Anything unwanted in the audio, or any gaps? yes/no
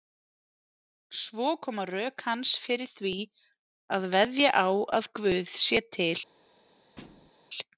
yes